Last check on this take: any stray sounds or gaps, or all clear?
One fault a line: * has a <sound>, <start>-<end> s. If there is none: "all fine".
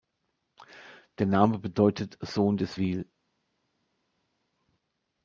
all fine